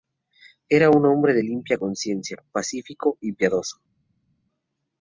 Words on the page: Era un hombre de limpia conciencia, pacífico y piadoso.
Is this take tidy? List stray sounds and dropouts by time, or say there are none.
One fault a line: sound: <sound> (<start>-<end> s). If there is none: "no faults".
no faults